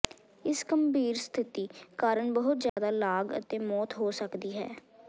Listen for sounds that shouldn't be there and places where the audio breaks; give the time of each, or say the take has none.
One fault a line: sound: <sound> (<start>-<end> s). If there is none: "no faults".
sound: dropout (2.7-2.8 s)